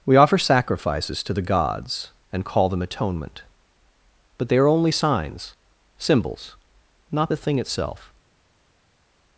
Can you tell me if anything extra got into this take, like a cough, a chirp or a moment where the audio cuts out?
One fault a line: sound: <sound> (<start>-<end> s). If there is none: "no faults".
no faults